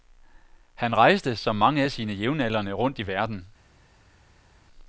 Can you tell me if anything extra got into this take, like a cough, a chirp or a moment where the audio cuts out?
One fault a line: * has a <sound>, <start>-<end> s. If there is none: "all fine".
all fine